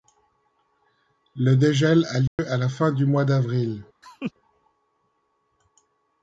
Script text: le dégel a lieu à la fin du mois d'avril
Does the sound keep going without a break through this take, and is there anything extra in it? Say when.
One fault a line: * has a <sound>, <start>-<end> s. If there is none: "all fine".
* has a dropout, 2.3-2.4 s
* has a laugh, 4.0-4.3 s